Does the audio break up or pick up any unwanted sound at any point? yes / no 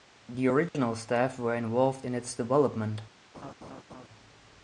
yes